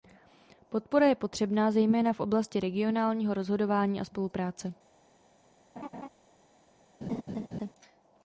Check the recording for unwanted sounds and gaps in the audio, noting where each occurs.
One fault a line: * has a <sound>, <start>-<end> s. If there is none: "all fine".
* has a laugh, 5.8-6.1 s
* has a laugh, 7.0-7.7 s